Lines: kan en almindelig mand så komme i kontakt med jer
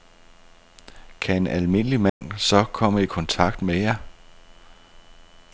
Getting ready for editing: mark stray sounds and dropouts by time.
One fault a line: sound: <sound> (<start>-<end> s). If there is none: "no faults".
sound: dropout (2.1-2.2 s)